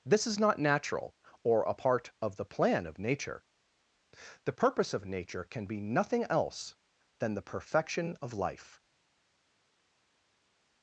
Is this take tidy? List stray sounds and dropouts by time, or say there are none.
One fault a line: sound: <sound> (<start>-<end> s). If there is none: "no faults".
no faults